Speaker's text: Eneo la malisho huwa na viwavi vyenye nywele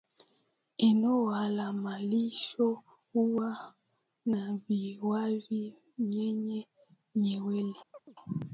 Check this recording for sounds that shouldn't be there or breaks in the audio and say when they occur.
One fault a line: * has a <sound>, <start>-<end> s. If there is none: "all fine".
* has a chirp, 7.9-8.2 s